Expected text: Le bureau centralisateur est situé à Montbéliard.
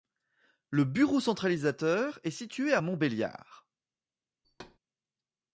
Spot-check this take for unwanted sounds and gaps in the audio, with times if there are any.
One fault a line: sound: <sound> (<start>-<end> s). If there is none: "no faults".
sound: thud (4.4-4.8 s)